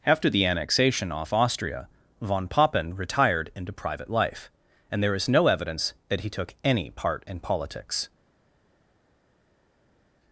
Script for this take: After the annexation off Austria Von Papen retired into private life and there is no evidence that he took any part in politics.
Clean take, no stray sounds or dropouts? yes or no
yes